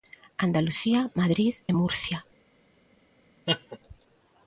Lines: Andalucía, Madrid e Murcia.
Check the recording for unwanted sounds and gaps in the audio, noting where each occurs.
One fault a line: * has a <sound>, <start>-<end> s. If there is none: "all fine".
* has a laugh, 3.5-3.8 s